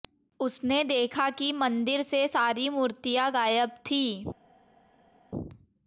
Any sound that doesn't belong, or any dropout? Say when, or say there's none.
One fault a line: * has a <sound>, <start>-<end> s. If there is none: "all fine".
all fine